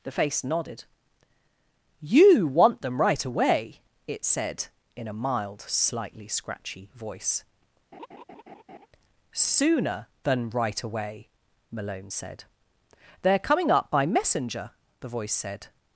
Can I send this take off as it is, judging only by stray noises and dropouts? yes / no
no